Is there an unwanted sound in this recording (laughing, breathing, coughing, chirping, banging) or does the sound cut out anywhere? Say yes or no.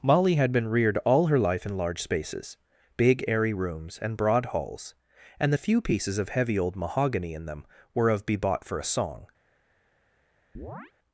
yes